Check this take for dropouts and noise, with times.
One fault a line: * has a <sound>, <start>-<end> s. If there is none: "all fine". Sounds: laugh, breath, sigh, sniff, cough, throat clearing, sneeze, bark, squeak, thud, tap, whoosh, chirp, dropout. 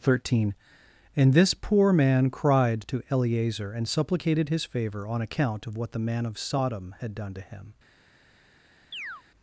* has a chirp, 8.9-9.2 s